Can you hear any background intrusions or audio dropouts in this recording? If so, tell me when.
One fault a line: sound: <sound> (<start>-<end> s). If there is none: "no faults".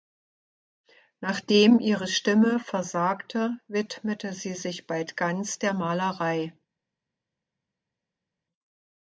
no faults